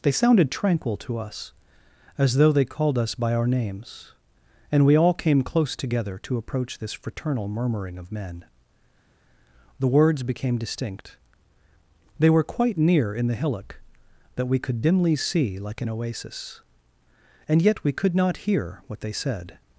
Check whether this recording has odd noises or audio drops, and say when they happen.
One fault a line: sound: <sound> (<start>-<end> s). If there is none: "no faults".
no faults